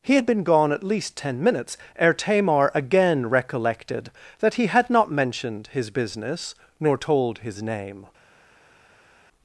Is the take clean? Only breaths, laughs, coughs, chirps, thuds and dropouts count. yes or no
yes